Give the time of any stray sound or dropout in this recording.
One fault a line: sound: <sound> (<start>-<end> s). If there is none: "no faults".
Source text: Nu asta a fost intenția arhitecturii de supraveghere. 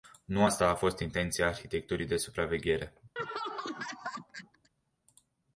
sound: laugh (3.2-4.7 s)